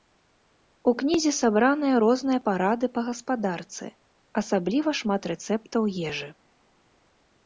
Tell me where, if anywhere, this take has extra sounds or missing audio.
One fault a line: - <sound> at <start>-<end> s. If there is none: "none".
none